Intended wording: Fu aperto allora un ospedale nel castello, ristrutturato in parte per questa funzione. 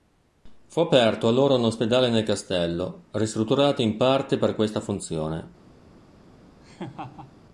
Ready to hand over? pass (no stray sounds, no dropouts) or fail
fail